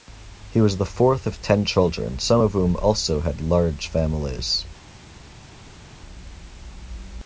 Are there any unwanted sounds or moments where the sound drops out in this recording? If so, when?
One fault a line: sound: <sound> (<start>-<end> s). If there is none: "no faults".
no faults